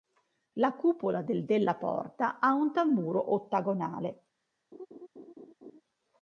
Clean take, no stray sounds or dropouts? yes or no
no